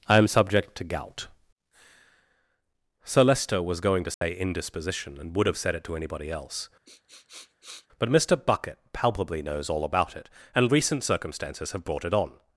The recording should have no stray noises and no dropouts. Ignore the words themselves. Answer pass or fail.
fail